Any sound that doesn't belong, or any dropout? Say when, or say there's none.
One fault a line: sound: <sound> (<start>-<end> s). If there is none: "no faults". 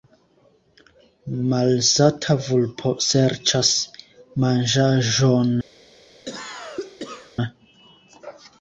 sound: cough (6.2-7.4 s)